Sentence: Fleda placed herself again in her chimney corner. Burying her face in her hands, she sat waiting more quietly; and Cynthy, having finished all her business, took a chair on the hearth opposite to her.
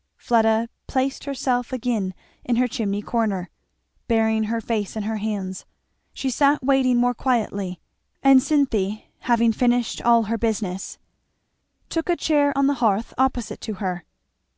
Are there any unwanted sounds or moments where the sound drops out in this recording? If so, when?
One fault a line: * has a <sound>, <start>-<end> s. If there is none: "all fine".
all fine